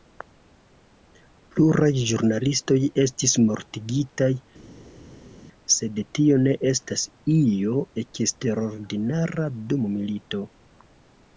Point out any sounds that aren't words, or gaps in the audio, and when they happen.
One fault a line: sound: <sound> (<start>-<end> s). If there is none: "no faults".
no faults